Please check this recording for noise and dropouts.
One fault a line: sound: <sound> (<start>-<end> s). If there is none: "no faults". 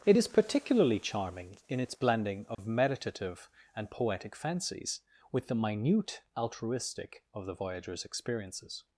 sound: dropout (2.5-2.6 s)